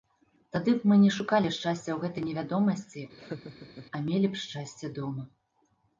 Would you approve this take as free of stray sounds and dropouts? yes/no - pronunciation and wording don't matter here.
no